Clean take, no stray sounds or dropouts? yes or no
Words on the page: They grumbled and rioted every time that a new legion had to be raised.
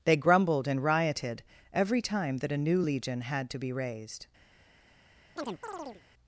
no